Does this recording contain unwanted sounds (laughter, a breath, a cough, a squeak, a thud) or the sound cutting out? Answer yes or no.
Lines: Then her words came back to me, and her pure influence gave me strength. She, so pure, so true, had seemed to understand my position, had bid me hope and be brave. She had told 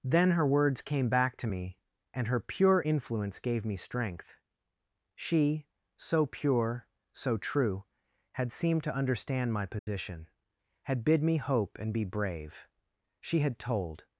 yes